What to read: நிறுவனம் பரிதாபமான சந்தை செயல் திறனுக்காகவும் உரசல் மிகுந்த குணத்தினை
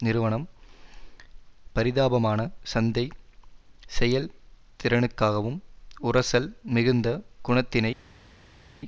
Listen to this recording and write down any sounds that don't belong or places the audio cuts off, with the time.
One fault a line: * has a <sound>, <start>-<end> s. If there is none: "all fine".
all fine